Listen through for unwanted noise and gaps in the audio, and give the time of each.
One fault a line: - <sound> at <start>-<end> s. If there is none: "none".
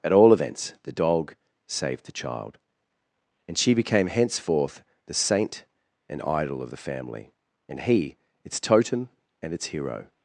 none